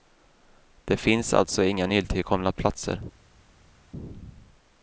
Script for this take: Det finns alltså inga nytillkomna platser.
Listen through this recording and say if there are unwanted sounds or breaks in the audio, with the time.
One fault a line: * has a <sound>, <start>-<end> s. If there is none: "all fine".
all fine